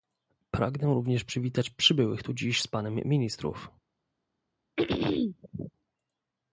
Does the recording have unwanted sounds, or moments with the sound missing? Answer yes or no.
yes